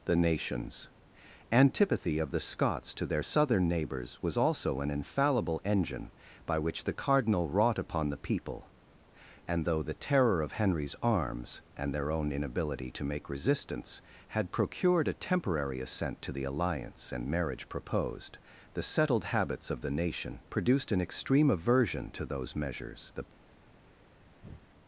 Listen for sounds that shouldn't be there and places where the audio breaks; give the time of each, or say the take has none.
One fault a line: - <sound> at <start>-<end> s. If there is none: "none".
- breath at 24.4-24.6 s